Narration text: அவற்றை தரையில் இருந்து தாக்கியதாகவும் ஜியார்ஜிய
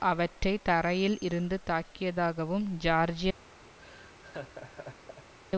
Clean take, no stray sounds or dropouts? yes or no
no